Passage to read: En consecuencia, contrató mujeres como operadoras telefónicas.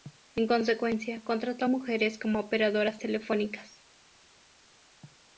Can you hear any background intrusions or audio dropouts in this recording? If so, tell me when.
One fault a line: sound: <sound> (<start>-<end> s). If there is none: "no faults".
no faults